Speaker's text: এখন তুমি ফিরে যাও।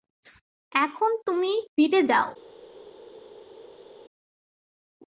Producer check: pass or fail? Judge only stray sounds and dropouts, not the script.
pass